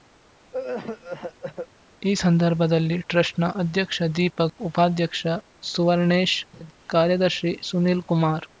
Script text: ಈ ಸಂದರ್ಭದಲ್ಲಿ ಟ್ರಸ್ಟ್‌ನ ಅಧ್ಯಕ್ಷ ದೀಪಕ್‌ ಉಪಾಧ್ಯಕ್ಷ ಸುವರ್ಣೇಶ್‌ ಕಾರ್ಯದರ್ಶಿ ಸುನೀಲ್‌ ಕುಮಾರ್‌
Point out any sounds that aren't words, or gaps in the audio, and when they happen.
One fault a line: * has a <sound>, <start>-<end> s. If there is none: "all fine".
* has a cough, 0.5-1.7 s
* has a laugh, 6.5-6.7 s